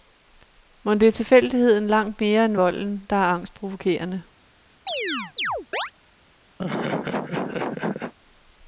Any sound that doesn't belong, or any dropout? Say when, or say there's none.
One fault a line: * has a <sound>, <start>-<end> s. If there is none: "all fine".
* has a chirp, 4.9-5.9 s
* has a laugh, 6.6-8.1 s